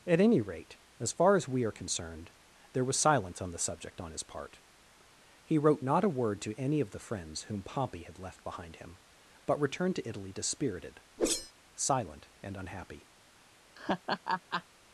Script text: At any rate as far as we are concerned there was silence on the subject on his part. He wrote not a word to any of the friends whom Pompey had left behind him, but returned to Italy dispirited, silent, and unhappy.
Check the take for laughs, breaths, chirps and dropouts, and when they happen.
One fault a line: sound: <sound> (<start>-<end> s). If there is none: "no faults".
sound: whoosh (11.2-11.5 s)
sound: laugh (13.7-14.6 s)